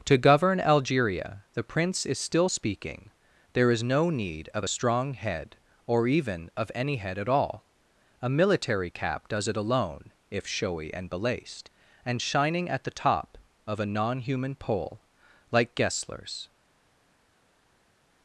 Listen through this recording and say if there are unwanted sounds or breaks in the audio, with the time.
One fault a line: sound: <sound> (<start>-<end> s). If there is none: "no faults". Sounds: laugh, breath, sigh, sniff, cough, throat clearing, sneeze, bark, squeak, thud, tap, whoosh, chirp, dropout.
no faults